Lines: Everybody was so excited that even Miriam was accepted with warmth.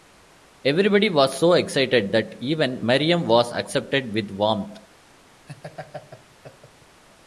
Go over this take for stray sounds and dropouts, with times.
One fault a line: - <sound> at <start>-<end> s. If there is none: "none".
- laugh at 5.5-7.0 s